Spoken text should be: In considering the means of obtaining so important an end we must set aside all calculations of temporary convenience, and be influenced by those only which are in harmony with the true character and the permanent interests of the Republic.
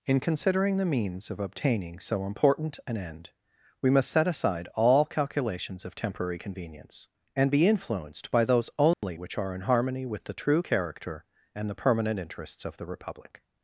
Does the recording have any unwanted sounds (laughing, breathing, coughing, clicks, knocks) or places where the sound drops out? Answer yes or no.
yes